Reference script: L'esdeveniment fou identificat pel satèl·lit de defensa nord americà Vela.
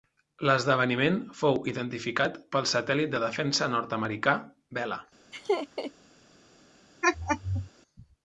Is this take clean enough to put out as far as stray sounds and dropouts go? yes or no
no